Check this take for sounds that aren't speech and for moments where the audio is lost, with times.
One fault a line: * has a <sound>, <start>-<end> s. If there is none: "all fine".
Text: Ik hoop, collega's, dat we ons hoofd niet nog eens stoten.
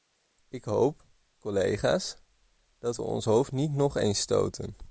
all fine